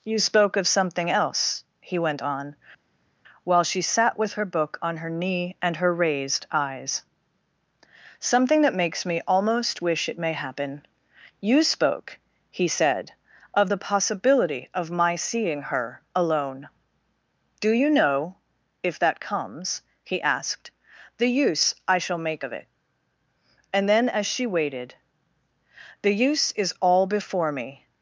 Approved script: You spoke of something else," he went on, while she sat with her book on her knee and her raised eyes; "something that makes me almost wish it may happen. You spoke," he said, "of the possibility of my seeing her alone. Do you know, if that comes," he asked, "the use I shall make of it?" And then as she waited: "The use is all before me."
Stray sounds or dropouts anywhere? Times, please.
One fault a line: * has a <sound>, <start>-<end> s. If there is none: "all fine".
all fine